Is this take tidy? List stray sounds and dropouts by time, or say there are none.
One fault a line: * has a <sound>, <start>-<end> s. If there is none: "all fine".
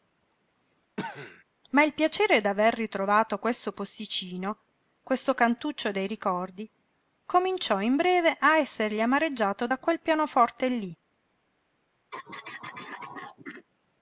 * has a cough, 1.0-1.4 s
* has a throat clearing, 12.1-13.7 s